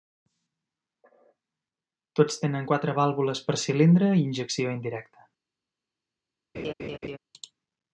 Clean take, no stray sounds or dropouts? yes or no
no